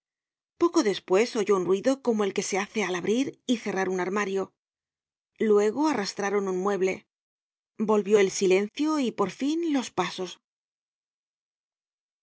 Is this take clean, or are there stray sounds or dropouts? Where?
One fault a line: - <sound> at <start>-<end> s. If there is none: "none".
none